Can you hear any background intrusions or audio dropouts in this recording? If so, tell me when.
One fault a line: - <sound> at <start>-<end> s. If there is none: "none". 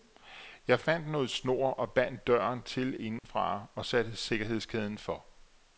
- dropout at 3.2-3.2 s